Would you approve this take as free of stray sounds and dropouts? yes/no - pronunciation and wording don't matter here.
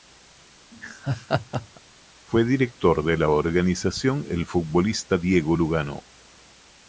no